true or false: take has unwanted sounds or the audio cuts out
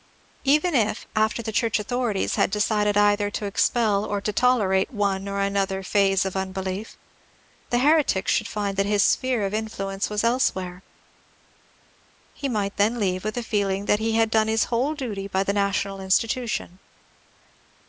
false